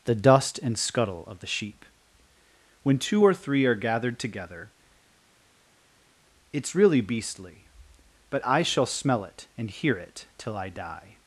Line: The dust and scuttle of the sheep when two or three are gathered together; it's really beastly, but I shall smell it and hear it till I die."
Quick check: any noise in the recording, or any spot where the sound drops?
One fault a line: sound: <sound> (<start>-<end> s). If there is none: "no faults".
no faults